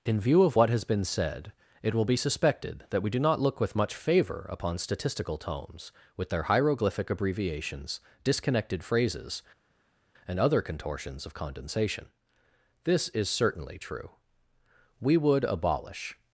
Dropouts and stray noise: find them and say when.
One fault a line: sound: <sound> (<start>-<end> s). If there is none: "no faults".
no faults